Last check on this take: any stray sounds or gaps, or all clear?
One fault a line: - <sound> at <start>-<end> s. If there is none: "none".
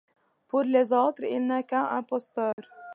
- dropout at 2.5-2.6 s